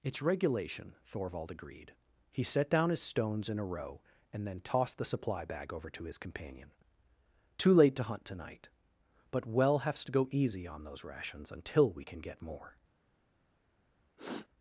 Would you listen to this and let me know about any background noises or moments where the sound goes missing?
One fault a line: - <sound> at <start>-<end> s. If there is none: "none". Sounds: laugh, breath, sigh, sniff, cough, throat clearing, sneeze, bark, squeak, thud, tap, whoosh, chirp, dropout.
- sniff at 14.2-14.5 s